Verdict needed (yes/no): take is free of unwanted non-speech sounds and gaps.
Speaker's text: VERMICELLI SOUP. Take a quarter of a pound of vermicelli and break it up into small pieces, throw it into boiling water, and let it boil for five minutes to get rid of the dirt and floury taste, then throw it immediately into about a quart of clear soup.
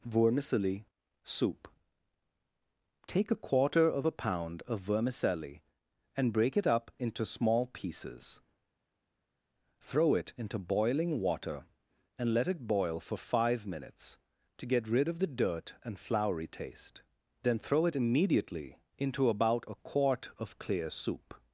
yes